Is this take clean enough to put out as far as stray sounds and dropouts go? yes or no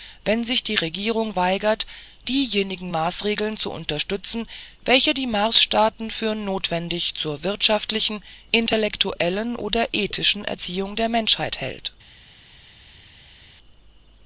yes